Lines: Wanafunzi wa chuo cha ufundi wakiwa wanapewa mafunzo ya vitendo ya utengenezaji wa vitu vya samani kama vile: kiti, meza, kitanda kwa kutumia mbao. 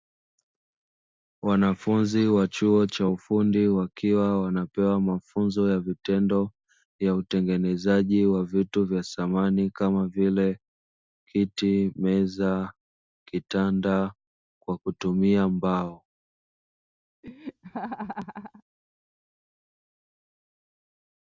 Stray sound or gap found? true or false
true